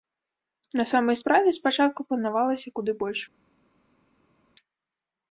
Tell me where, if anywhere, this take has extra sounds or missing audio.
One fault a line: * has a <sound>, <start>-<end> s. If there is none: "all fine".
all fine